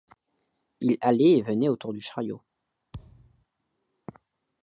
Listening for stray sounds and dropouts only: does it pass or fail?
fail